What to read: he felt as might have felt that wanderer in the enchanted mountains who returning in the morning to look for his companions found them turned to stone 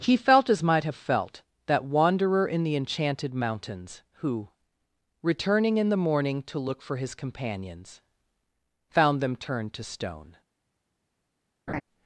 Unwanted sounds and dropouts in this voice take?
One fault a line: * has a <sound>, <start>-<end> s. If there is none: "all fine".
* has a laugh, 11.7-11.8 s